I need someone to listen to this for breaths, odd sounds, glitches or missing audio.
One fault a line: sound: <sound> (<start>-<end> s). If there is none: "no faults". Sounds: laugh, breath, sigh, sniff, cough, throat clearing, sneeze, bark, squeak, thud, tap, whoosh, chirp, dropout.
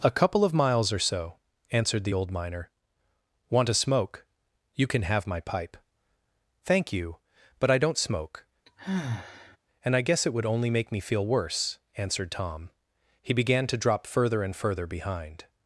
sound: sigh (8.7-9.6 s)